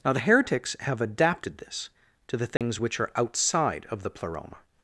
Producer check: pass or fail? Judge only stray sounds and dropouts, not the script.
fail